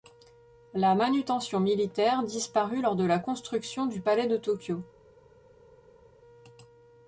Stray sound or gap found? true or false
false